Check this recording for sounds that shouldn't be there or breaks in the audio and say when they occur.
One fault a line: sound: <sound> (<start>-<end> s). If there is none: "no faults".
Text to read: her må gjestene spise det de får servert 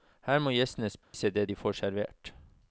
sound: dropout (1.0-1.1 s)